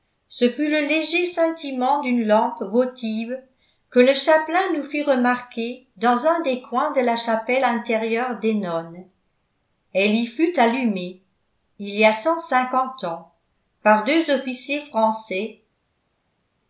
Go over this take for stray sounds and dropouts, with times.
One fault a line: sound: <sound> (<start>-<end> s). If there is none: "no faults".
no faults